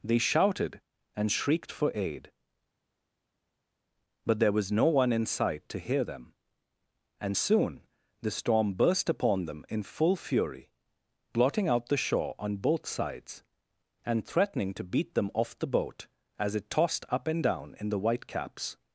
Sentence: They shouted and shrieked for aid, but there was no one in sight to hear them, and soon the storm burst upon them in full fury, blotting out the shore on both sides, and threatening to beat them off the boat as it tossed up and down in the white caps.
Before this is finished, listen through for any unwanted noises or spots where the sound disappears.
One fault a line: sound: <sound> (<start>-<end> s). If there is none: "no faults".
no faults